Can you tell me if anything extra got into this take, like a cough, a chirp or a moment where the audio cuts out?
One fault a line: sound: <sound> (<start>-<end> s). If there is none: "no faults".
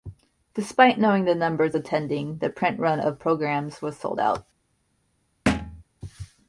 sound: thud (5.5-5.8 s)